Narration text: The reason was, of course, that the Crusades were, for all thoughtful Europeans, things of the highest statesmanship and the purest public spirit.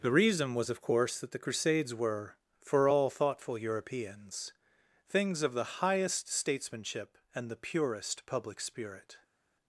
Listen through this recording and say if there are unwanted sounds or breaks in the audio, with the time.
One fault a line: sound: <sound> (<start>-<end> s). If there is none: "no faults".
no faults